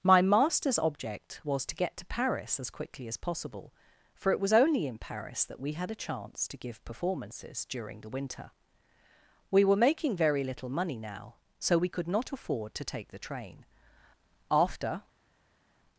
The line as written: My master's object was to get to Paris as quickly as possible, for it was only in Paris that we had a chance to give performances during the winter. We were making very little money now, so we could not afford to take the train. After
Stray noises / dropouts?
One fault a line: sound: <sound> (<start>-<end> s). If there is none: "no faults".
no faults